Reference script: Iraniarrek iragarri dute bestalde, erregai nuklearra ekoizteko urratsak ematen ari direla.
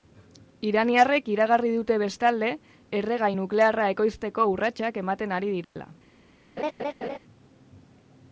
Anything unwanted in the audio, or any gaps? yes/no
yes